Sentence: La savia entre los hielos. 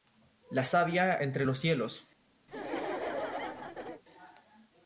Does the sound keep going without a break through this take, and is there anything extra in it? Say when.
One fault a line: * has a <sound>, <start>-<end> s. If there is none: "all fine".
* has a laugh, 2.5-4.0 s